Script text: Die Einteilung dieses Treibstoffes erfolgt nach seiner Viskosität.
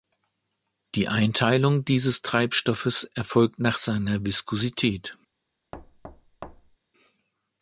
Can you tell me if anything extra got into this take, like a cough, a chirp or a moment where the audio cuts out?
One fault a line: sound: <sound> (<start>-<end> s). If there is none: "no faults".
sound: thud (5.7-6.8 s)